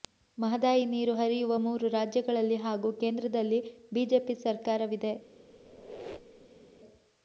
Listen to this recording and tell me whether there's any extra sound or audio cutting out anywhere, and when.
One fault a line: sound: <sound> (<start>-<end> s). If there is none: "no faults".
sound: squeak (5.5-6.6 s)